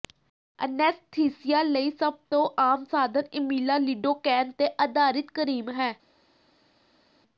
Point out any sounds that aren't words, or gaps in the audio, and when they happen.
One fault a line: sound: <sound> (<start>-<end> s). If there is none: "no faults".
no faults